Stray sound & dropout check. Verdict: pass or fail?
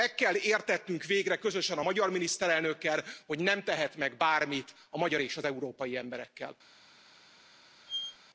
fail